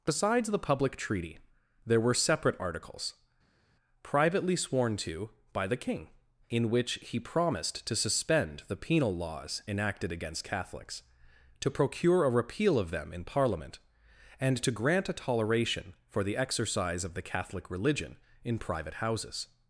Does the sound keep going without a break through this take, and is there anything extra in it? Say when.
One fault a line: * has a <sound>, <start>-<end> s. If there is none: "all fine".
all fine